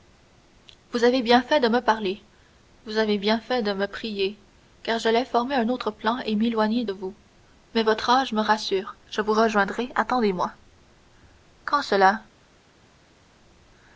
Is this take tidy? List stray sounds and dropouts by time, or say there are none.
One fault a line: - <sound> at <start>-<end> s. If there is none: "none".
none